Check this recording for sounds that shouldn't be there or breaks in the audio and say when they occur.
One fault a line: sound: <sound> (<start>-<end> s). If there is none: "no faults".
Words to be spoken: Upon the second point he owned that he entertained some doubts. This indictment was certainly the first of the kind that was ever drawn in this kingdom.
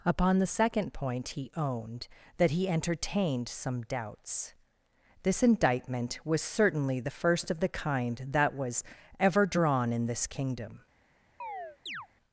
sound: chirp (11.4-12.1 s)